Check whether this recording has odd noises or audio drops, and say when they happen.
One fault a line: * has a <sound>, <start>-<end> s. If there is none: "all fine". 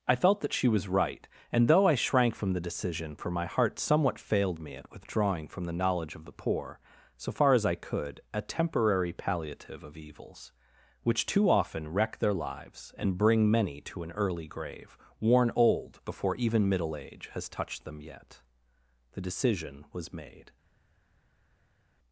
all fine